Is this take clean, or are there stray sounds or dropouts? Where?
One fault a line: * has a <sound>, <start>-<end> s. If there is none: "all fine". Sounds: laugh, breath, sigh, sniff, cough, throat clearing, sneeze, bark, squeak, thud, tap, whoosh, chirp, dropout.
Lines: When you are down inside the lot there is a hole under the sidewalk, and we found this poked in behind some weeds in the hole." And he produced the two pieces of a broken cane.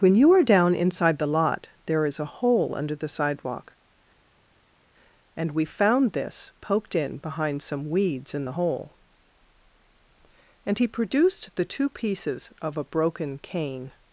all fine